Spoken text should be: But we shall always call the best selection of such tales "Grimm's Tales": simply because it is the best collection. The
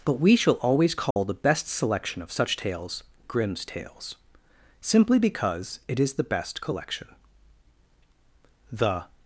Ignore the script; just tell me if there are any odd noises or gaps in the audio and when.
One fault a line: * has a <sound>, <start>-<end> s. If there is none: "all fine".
* has a dropout, 1.1-1.2 s